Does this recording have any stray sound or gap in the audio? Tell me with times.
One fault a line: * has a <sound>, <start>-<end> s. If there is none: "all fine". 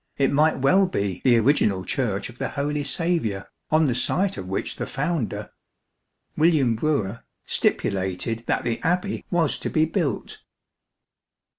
all fine